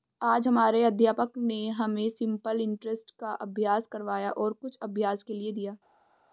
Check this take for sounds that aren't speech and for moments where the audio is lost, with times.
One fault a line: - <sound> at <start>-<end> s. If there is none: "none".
none